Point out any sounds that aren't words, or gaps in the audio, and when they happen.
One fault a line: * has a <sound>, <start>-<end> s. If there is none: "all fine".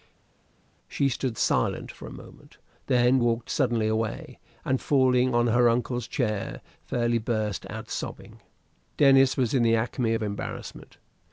all fine